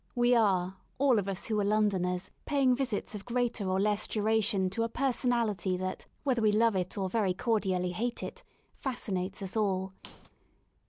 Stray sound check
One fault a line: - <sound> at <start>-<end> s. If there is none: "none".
- squeak at 10.0-10.3 s